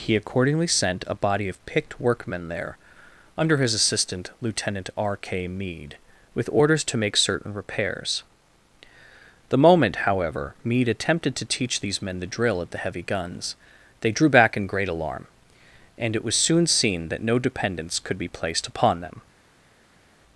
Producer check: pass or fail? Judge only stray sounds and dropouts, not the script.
pass